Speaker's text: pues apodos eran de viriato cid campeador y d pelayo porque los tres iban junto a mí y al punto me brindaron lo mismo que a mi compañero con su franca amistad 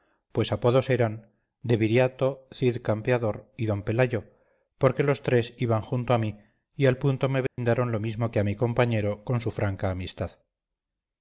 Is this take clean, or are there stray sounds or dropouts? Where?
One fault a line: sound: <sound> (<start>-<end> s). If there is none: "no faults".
sound: dropout (7.5-7.6 s)